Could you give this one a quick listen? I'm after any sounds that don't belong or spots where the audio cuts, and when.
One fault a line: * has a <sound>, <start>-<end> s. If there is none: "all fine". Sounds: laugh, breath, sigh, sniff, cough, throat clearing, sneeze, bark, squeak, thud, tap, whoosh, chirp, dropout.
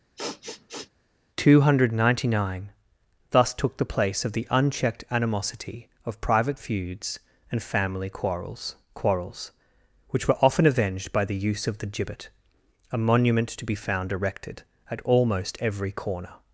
* has a sniff, 0.2-0.9 s